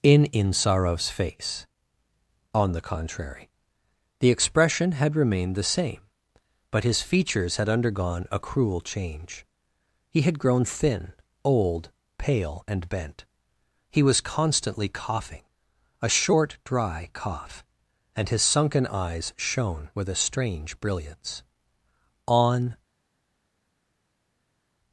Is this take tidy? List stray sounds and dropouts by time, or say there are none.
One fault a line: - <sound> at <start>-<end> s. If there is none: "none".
none